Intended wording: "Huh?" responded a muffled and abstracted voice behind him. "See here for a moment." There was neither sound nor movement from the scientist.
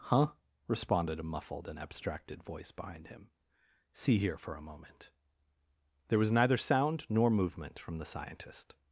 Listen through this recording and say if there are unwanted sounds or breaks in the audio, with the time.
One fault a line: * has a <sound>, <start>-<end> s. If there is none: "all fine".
all fine